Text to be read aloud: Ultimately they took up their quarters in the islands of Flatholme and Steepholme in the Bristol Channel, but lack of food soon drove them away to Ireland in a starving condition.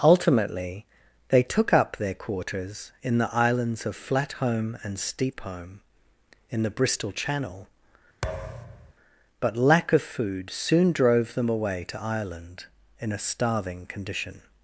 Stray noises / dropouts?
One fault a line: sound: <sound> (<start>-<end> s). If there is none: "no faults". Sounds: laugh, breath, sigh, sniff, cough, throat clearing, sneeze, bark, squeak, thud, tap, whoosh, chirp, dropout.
sound: thud (8.2-8.9 s)